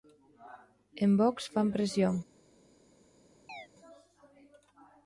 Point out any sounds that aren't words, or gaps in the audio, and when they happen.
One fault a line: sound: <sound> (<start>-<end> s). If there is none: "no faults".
sound: chirp (3.5-3.7 s)